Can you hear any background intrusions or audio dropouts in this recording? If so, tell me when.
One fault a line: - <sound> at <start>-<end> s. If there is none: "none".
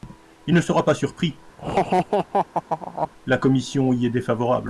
- laugh at 1.6-3.1 s